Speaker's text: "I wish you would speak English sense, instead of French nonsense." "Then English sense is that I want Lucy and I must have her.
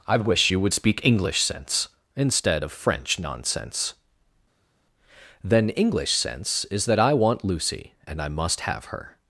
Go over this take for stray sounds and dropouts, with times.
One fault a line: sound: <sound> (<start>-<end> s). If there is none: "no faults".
no faults